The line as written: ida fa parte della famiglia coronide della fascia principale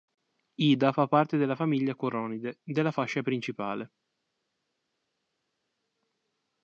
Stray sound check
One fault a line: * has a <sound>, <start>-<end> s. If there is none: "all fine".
all fine